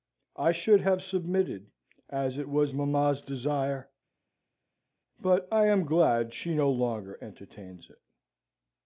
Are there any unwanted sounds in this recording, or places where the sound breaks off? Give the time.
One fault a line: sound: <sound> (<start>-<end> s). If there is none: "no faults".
no faults